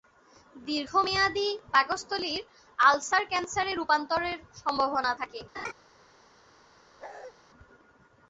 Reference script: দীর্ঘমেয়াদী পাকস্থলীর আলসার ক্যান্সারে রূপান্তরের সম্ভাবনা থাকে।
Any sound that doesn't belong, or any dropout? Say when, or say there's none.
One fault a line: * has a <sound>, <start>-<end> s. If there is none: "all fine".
* has a laugh, 5.5-5.7 s
* has a bark, 7.0-7.3 s